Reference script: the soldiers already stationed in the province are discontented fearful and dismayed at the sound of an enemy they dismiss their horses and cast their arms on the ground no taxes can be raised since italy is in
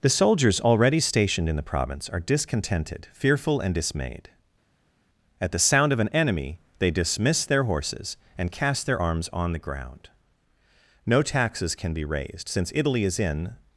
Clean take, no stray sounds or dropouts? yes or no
yes